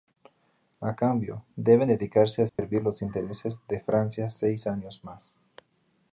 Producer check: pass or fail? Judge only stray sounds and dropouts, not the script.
fail